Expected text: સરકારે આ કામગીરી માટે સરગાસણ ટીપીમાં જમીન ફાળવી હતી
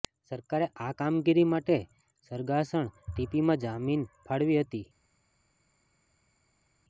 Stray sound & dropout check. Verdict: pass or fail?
pass